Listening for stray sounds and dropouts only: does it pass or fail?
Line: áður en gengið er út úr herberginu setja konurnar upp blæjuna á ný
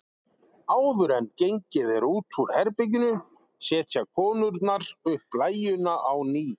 pass